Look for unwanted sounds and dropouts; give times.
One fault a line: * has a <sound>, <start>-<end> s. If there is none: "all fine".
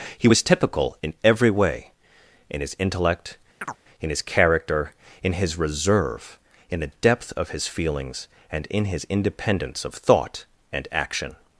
* has a chirp, 3.6-3.8 s